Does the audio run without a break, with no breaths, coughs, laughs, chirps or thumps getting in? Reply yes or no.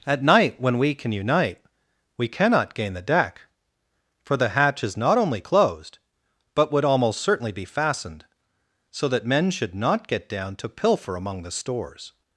yes